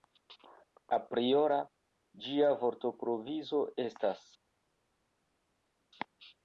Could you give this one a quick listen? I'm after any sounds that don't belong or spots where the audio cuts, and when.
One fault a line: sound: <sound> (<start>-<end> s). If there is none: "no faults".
no faults